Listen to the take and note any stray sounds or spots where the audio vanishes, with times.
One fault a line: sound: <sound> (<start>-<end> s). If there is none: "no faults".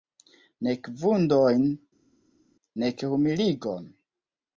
no faults